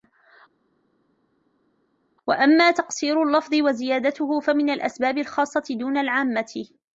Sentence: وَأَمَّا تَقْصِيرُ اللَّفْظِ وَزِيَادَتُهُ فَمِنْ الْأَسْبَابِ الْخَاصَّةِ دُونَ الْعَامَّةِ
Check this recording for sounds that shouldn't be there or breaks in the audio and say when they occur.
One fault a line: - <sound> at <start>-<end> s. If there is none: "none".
none